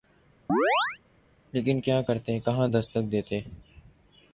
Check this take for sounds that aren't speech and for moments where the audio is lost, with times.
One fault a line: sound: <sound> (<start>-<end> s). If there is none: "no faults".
sound: chirp (0.5-1.0 s)